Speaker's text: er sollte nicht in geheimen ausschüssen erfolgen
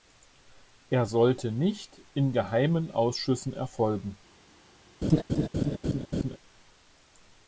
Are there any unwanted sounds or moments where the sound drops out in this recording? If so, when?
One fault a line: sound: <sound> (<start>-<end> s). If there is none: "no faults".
sound: laugh (5.0-6.4 s)